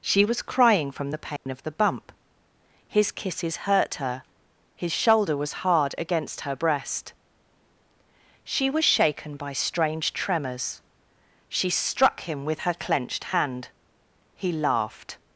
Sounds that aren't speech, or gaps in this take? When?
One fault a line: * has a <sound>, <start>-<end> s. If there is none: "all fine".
* has a dropout, 1.4-1.5 s